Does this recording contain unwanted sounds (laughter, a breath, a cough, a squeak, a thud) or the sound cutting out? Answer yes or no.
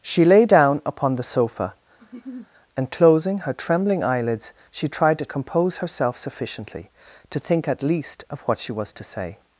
yes